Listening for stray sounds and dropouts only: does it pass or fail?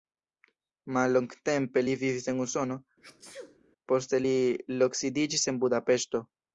fail